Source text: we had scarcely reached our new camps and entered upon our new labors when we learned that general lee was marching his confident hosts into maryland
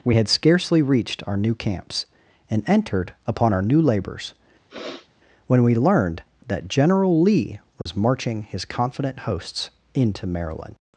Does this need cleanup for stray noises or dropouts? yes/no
yes